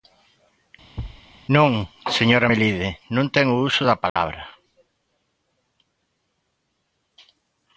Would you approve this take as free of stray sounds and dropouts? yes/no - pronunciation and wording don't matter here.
no